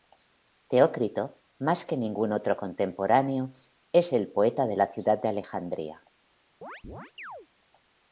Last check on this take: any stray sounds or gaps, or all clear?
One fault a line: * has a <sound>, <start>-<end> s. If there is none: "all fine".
* has a chirp, 6.6-7.5 s